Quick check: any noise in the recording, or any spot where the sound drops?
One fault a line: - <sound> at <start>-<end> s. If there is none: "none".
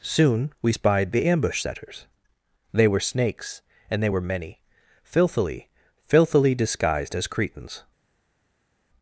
none